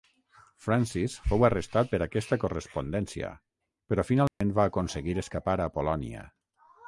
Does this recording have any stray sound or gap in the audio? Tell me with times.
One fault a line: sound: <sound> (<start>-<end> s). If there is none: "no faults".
sound: dropout (4.3-4.4 s)